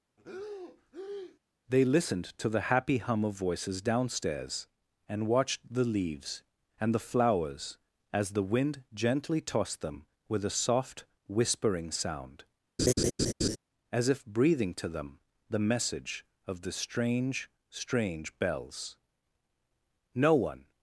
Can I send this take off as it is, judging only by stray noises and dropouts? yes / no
no